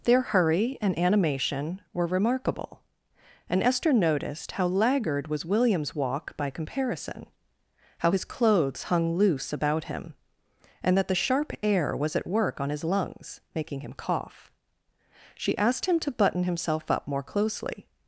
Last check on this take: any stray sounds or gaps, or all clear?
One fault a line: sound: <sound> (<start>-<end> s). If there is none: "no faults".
no faults